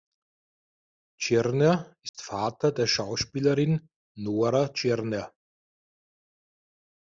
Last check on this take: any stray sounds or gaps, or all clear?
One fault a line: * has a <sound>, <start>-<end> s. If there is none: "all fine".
* has a dropout, 2.1-2.1 s